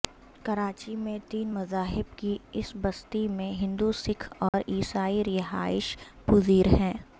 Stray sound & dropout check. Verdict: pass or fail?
fail